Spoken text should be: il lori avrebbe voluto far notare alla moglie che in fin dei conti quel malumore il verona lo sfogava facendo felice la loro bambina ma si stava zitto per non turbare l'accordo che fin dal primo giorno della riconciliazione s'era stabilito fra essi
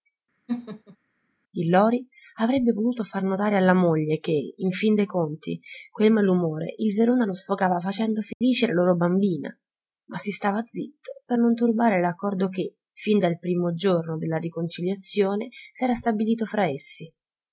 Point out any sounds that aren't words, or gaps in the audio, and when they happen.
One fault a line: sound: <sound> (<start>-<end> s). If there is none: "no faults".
sound: laugh (0.5-1.0 s)
sound: dropout (8.3-8.4 s)